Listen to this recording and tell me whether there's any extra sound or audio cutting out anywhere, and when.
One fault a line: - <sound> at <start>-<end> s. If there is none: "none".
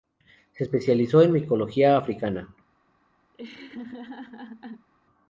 - laugh at 3.3-4.9 s